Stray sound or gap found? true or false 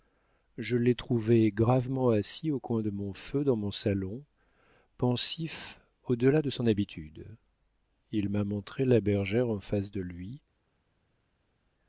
false